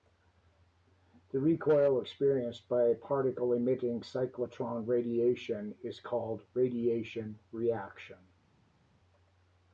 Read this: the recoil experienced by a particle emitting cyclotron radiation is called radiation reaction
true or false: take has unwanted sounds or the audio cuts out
false